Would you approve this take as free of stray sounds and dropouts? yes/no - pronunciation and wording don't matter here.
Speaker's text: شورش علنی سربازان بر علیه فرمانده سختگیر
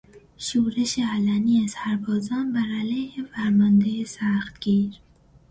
yes